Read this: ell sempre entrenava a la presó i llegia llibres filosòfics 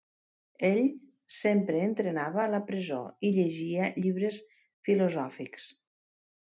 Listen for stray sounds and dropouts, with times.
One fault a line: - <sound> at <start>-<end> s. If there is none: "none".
none